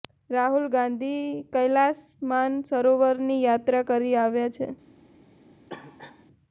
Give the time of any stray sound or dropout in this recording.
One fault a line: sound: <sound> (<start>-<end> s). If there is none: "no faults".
sound: cough (5.7-6.3 s)